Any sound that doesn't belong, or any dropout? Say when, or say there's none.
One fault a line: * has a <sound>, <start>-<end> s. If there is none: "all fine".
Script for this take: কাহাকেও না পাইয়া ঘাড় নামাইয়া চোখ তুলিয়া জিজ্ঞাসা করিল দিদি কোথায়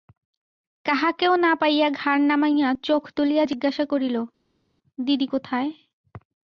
all fine